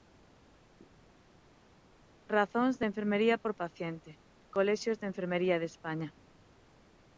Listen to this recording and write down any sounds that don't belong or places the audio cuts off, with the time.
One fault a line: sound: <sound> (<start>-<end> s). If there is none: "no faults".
no faults